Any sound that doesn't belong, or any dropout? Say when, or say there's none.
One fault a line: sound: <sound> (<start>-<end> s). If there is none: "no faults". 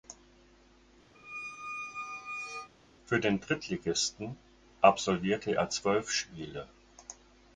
sound: squeak (1.1-2.7 s)